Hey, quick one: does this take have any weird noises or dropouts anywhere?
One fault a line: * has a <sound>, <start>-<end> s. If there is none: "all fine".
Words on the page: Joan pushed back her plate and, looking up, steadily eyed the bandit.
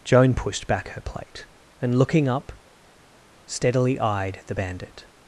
all fine